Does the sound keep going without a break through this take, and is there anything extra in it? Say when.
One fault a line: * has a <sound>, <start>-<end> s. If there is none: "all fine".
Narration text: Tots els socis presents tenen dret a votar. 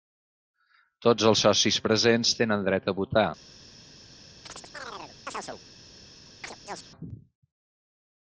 * has a chirp, 4.5-5.6 s
* has a chirp, 6.4-6.9 s